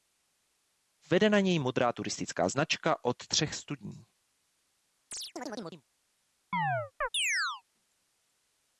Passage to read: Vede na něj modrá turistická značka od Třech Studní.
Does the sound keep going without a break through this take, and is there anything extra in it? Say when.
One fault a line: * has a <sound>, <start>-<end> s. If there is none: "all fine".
* has a chirp, 5.1-5.8 s
* has a chirp, 6.5-7.6 s